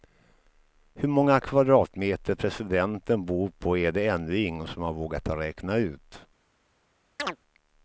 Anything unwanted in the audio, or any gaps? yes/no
yes